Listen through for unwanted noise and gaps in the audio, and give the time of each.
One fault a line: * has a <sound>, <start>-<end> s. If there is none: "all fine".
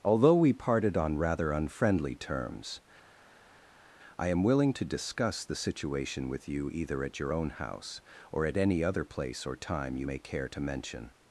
all fine